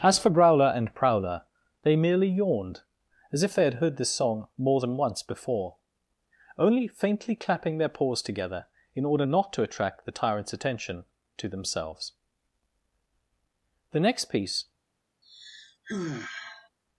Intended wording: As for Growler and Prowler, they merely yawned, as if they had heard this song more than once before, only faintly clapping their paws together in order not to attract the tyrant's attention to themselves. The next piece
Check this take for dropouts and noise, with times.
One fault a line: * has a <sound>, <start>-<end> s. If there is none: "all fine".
* has a sigh, 15.2-16.7 s